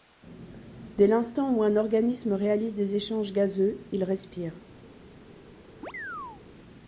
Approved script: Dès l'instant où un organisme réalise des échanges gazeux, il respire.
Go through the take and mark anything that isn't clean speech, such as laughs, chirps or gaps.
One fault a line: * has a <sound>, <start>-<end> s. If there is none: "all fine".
* has a chirp, 5.8-6.4 s